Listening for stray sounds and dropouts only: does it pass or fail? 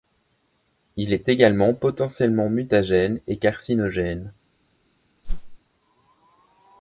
fail